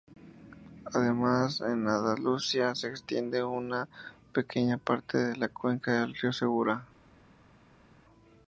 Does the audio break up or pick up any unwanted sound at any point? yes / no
no